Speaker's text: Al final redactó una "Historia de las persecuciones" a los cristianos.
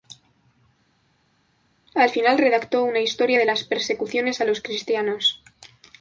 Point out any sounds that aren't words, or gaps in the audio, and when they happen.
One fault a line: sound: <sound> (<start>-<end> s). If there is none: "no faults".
no faults